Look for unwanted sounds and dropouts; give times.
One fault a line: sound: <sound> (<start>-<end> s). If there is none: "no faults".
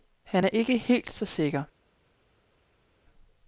no faults